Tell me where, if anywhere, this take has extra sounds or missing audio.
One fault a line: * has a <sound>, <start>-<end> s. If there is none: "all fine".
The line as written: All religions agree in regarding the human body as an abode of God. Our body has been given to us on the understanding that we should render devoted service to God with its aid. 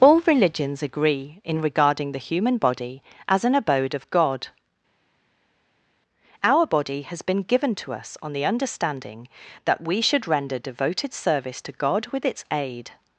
all fine